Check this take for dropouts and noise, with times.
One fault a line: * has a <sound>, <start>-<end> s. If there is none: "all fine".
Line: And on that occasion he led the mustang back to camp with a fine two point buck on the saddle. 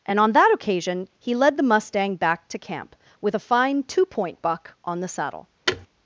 * has a thud, 5.7-5.9 s